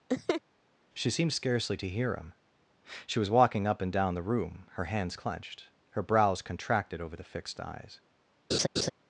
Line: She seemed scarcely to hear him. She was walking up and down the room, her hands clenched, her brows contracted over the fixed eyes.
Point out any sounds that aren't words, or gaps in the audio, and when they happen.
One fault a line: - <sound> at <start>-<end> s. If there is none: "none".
- laugh at 0.1-0.4 s
- laugh at 8.5-8.9 s